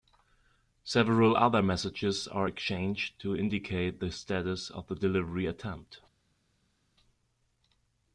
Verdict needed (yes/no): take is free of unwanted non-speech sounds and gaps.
yes